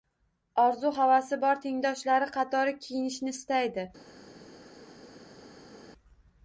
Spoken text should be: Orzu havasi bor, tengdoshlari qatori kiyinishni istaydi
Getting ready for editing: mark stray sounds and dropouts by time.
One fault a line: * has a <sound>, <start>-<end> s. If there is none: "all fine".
all fine